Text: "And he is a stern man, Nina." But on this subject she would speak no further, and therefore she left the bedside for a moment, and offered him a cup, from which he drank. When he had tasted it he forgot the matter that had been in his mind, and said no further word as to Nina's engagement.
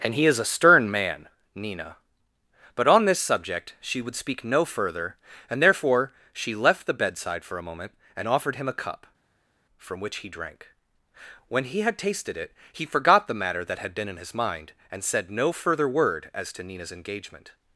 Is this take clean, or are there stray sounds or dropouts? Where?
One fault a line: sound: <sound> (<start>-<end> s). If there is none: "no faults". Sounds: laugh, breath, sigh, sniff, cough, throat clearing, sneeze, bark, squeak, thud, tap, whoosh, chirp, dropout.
no faults